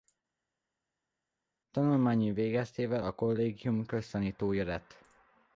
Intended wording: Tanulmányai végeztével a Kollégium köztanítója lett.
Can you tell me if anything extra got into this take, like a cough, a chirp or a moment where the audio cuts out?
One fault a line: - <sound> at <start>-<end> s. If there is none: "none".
none